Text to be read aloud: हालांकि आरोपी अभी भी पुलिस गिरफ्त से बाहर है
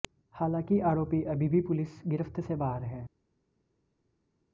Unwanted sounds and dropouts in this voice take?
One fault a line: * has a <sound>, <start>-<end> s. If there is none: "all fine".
all fine